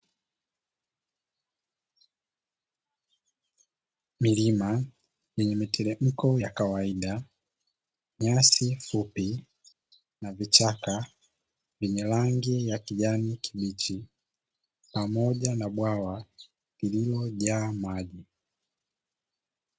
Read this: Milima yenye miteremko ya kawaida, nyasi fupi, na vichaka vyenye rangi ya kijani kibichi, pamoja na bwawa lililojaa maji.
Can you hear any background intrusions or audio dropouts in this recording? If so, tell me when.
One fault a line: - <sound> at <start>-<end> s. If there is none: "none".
none